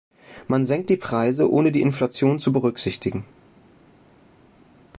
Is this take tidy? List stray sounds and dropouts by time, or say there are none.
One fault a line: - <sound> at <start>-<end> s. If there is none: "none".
none